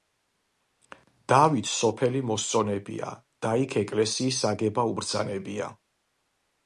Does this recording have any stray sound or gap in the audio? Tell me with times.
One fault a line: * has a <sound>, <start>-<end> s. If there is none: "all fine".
all fine